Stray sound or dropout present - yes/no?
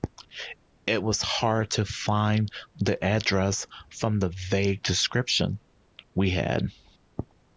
no